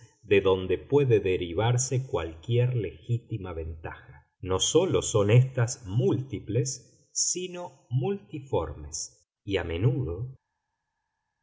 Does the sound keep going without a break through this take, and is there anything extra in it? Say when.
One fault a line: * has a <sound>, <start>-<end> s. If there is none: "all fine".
all fine